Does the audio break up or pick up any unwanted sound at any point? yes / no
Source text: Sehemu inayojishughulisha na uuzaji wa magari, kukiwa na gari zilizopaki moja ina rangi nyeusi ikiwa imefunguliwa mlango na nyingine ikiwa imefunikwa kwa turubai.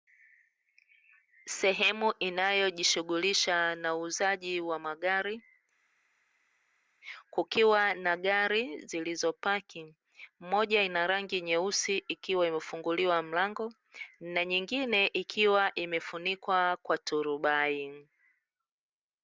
no